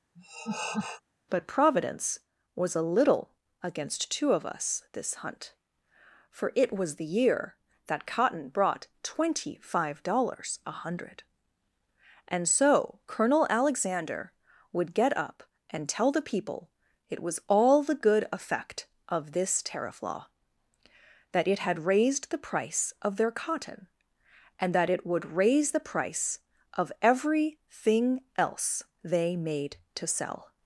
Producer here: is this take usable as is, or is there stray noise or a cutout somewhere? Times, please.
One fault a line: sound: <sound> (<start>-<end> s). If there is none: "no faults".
sound: laugh (0.1-1.0 s)